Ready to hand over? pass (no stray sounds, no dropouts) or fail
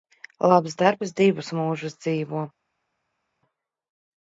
pass